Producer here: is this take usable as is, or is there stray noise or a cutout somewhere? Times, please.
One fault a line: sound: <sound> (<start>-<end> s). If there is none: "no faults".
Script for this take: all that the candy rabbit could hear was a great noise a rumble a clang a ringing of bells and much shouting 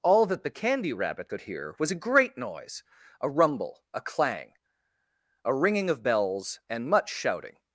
no faults